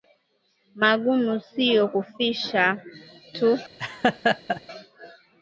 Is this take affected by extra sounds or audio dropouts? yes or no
yes